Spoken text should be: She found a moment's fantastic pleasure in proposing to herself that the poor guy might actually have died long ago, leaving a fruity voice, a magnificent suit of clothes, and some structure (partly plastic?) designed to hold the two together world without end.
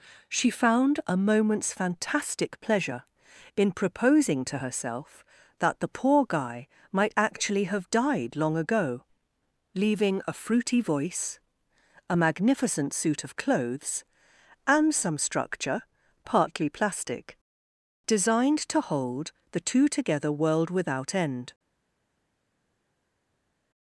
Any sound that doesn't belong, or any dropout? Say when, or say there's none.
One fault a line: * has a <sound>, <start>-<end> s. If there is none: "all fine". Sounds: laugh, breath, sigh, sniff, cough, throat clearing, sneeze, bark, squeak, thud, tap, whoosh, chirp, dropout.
all fine